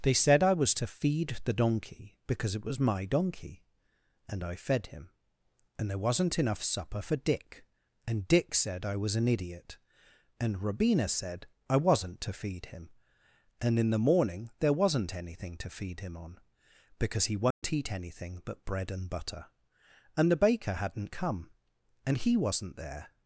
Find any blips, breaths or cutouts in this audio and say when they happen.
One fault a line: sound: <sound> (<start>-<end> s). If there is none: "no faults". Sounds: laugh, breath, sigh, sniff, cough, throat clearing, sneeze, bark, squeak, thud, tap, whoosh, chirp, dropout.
sound: dropout (17.5-17.6 s)